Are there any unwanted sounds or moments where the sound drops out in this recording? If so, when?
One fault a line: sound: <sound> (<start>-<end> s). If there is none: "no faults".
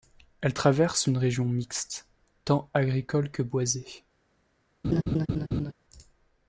sound: laugh (4.8-5.7 s)